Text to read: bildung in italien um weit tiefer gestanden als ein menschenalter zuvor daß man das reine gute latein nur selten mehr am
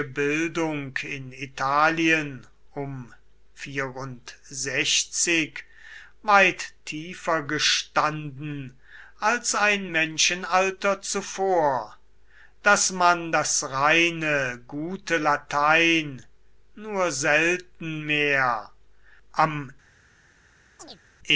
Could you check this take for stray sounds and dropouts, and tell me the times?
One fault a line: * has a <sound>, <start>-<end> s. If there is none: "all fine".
* has a chirp, 20.8-21.0 s